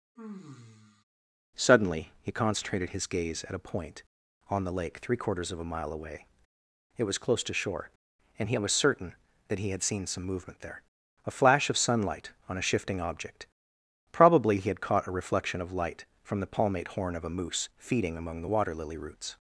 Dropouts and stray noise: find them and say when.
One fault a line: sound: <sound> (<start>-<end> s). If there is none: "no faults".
sound: sigh (0.2-1.0 s)